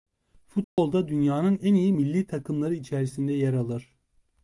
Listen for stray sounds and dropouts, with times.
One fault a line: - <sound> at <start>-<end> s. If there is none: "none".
- dropout at 0.6-0.8 s